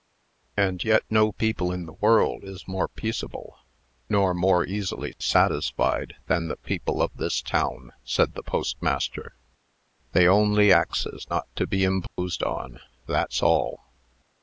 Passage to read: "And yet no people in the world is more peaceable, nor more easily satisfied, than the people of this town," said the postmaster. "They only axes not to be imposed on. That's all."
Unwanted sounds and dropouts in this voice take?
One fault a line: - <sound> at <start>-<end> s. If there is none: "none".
- dropout at 12.1-12.2 s